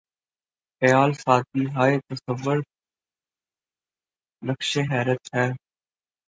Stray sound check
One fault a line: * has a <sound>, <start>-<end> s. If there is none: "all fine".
all fine